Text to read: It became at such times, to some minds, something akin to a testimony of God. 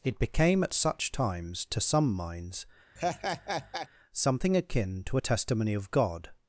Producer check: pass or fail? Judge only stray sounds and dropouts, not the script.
fail